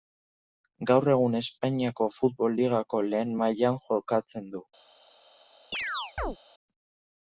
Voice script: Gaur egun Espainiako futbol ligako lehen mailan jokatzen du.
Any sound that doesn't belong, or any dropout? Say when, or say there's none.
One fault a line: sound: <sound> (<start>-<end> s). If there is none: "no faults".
sound: chirp (5.7-6.4 s)